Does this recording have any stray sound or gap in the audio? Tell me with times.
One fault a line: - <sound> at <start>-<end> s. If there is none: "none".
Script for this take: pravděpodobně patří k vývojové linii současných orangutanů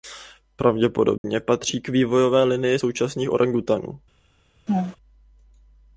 - dropout at 1.2-1.2 s
- laugh at 4.7-5.0 s